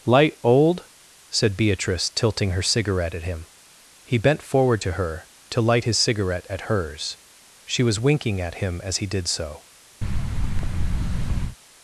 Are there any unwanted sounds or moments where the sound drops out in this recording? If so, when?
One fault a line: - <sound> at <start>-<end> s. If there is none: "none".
- thud at 10.0-11.6 s